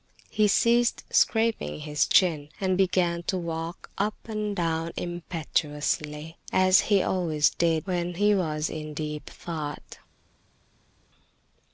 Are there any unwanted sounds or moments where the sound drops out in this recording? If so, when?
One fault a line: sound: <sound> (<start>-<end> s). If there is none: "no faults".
no faults